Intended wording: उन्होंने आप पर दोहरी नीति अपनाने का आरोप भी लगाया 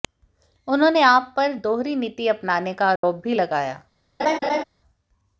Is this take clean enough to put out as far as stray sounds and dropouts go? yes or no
no